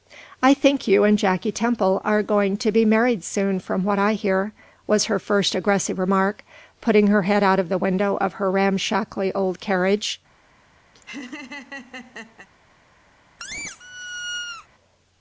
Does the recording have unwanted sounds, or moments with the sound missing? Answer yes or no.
yes